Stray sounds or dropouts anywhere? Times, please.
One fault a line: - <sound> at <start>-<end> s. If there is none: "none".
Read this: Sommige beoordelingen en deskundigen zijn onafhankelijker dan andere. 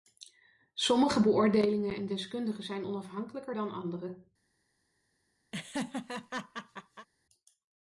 - laugh at 5.5-7.1 s